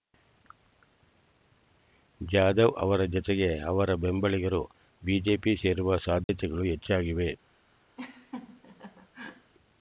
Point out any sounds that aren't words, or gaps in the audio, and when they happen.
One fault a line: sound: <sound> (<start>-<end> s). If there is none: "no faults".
sound: dropout (6.2-6.3 s)
sound: laugh (8.0-9.5 s)